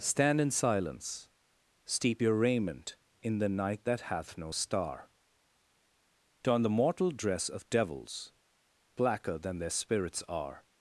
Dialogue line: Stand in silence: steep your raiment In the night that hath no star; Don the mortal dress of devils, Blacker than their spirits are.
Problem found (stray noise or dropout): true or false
false